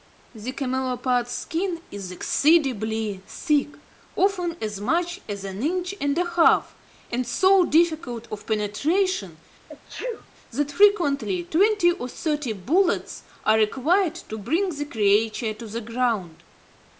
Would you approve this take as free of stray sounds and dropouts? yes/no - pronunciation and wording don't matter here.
no